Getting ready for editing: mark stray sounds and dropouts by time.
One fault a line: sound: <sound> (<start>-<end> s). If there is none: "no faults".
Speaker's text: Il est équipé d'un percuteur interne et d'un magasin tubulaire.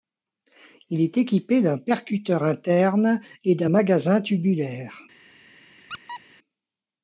sound: squeak (5.9-6.2 s)